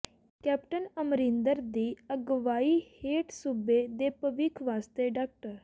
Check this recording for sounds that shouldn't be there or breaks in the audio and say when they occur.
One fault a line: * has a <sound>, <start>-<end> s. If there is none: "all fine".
all fine